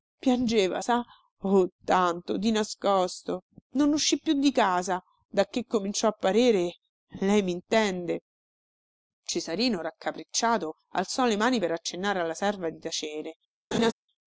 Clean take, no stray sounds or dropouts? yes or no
no